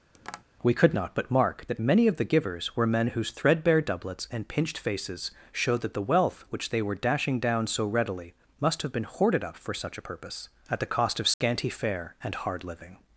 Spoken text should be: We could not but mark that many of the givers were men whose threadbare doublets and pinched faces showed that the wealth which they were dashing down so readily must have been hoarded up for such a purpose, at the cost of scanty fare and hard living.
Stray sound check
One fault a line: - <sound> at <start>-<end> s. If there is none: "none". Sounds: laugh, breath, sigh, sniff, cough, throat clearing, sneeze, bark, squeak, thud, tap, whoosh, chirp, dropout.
- tap at 0.1-0.4 s
- dropout at 11.3-11.4 s